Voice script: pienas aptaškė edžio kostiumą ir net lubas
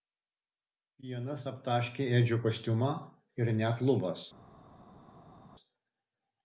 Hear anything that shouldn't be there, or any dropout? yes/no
no